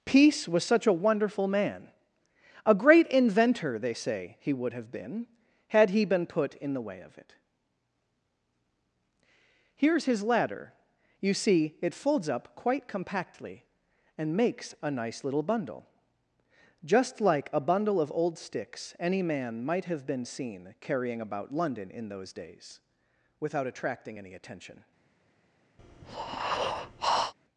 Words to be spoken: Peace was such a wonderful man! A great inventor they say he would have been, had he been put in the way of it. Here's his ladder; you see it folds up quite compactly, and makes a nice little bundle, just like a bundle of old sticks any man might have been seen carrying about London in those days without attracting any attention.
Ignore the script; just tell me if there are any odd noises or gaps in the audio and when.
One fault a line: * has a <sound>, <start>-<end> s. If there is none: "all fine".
* has a breath, 25.8-27.3 s